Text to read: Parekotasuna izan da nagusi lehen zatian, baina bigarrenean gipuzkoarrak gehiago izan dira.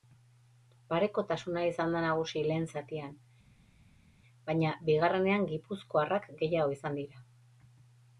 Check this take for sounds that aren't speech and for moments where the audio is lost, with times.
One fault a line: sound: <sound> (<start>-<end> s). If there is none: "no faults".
no faults